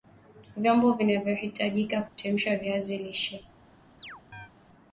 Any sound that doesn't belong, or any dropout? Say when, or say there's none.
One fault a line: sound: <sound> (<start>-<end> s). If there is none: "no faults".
sound: dropout (2.1-2.2 s)
sound: chirp (4.0-4.5 s)